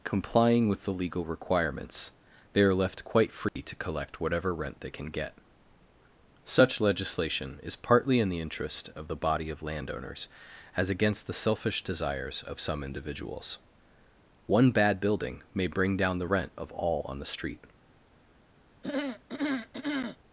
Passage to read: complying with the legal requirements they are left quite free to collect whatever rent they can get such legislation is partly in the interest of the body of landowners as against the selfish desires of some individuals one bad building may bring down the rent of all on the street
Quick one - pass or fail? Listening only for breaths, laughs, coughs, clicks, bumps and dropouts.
fail